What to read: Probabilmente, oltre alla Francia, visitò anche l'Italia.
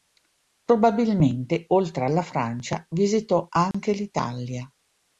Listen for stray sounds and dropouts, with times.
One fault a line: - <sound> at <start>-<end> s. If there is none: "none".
- dropout at 3.7-3.7 s